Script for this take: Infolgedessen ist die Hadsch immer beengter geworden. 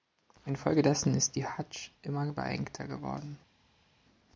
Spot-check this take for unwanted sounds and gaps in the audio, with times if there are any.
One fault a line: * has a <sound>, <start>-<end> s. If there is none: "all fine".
all fine